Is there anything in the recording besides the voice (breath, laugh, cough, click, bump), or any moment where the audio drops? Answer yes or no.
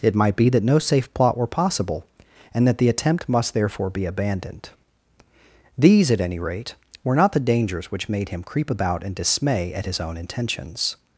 no